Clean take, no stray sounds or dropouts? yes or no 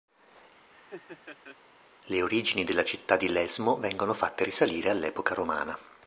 no